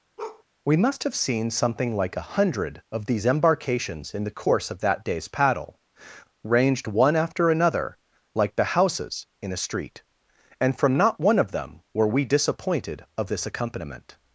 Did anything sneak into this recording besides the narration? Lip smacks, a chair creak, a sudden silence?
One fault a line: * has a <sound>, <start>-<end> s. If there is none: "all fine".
* has a bark, 0.2-0.4 s